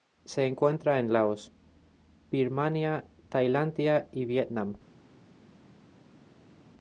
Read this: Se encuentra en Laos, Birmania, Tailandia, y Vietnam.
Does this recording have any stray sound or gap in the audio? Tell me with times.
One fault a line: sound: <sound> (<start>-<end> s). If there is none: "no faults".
no faults